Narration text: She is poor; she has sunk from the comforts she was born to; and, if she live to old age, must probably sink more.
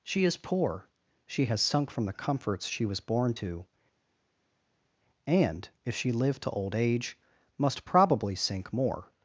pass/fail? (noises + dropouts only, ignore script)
pass